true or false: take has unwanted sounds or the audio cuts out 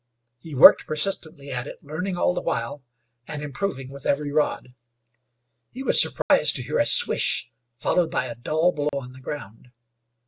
true